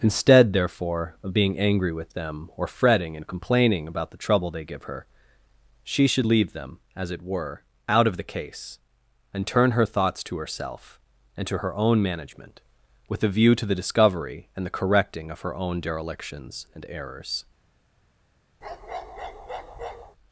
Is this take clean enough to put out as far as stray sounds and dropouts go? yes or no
no